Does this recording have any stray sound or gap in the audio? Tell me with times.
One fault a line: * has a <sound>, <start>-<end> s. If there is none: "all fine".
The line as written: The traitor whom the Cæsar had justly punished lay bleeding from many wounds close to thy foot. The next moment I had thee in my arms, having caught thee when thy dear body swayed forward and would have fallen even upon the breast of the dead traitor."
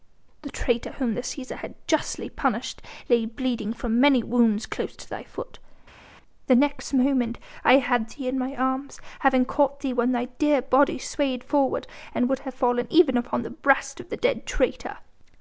all fine